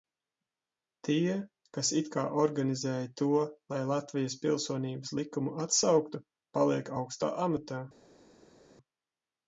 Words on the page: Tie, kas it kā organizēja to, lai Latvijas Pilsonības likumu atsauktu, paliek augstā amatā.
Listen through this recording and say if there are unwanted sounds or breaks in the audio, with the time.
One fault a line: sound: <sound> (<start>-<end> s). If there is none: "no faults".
no faults